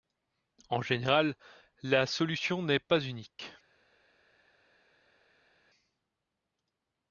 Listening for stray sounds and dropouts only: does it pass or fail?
pass